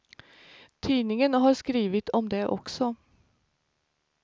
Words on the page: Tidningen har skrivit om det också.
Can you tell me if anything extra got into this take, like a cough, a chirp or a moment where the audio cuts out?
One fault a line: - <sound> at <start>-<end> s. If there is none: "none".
none